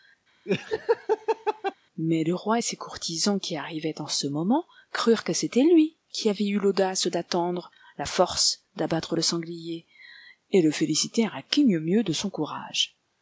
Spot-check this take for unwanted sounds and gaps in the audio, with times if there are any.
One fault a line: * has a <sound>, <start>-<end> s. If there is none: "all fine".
* has a laugh, 0.5-1.7 s